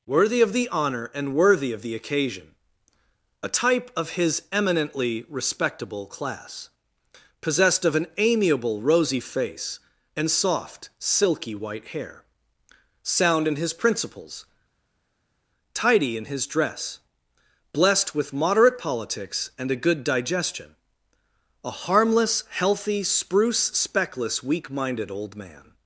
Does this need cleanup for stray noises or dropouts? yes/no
no